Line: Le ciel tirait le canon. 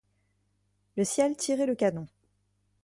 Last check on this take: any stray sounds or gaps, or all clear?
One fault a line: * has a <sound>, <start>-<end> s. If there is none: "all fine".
all fine